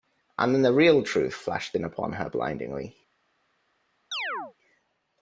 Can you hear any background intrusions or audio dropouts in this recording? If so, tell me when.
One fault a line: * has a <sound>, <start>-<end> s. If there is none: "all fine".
* has a chirp, 4.1-4.5 s